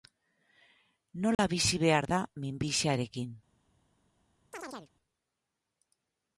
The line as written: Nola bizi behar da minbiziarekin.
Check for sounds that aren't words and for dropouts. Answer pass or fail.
fail